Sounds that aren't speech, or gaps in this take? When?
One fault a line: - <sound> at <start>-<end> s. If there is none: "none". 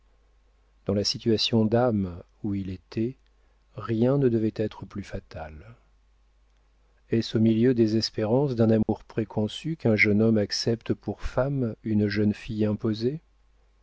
- dropout at 8.8-8.9 s